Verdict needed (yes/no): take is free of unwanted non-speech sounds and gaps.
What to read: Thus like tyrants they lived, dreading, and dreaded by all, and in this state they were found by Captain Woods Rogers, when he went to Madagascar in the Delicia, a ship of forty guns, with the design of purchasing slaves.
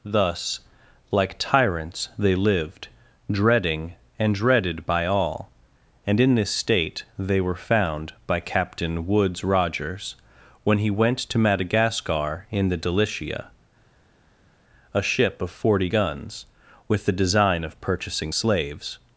yes